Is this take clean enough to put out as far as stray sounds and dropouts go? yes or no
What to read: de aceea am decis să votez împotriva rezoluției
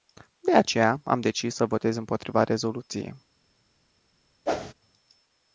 no